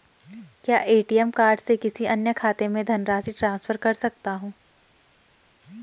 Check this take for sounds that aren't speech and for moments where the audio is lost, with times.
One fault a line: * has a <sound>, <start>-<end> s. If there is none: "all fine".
all fine